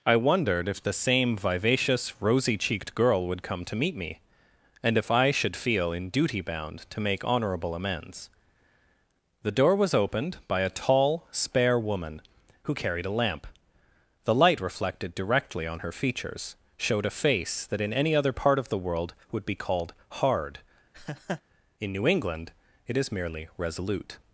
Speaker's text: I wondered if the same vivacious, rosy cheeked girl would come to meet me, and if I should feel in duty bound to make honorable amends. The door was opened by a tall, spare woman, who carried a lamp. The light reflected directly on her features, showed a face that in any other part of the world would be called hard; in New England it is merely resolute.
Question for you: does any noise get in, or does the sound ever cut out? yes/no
yes